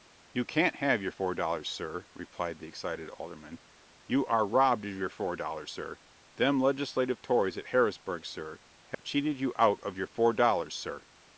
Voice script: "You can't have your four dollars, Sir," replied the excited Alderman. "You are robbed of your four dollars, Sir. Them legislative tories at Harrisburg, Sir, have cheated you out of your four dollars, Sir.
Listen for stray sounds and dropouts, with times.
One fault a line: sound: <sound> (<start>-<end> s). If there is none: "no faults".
sound: dropout (8.9-9.0 s)